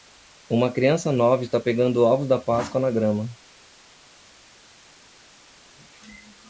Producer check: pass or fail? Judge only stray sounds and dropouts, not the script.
pass